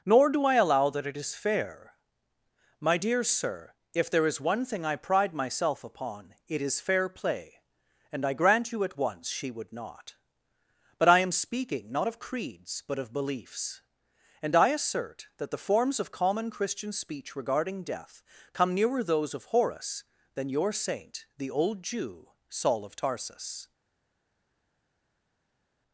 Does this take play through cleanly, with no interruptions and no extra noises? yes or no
yes